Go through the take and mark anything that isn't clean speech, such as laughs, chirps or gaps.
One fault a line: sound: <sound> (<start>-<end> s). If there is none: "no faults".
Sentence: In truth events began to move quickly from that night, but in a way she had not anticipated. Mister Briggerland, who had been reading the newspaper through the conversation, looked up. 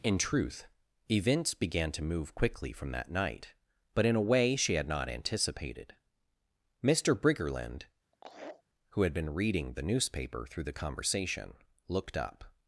sound: laugh (8.1-8.6 s)